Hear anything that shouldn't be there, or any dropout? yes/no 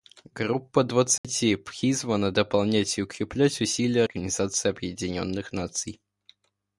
yes